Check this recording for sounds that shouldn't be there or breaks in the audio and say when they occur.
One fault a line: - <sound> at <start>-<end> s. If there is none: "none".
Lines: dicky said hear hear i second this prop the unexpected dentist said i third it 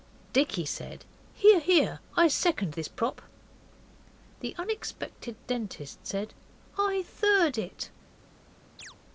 - chirp at 8.8-9.0 s